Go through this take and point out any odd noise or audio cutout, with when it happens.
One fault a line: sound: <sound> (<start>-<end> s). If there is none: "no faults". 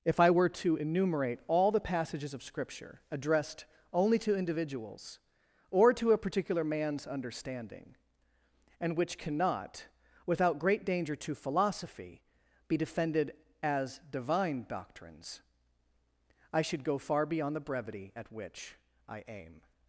no faults